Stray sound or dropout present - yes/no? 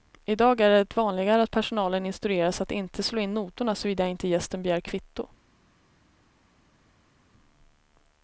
no